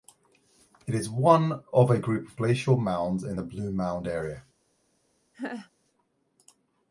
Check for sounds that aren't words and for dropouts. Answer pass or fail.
fail